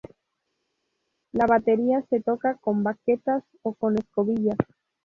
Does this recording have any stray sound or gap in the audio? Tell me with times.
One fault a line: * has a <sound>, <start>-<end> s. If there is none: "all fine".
all fine